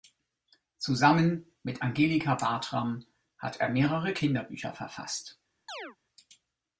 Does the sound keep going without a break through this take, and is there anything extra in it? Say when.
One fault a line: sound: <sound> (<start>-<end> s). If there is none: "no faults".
sound: chirp (5.7-6.0 s)